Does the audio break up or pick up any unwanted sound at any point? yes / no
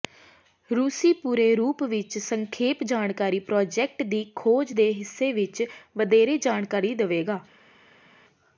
no